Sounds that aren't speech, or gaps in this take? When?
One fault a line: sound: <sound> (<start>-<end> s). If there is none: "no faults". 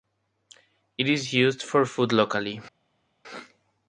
no faults